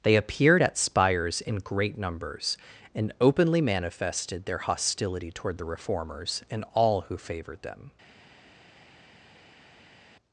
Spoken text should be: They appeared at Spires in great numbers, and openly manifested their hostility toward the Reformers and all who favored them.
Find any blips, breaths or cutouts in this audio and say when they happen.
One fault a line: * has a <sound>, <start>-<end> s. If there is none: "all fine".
all fine